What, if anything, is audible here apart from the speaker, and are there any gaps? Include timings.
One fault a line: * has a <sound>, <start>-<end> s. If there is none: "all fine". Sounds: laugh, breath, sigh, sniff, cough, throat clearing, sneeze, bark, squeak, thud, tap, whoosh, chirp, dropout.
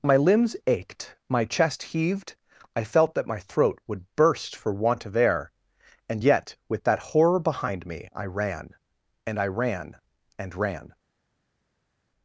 all fine